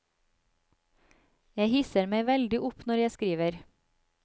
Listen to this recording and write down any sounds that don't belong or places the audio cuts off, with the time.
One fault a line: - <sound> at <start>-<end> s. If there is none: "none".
none